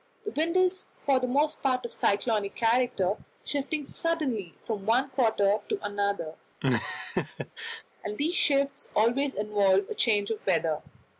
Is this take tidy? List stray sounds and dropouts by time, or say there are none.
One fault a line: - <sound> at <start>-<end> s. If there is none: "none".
- laugh at 6.6-7.8 s